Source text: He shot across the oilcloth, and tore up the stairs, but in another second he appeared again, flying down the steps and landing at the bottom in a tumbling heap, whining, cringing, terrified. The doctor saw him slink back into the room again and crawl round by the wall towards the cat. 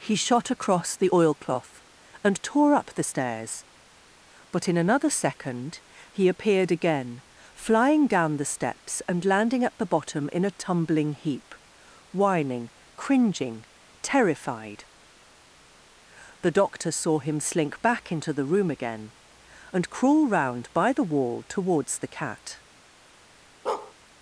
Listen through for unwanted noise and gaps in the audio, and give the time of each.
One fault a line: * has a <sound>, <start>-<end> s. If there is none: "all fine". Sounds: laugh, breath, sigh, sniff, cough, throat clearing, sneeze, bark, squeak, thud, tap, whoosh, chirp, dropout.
* has a bark, 23.7-23.9 s